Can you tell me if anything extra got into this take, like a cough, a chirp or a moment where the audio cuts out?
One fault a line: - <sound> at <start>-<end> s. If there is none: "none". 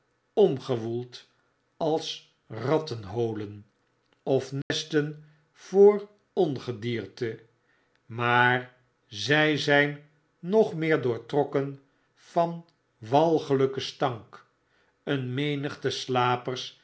- dropout at 4.6-4.7 s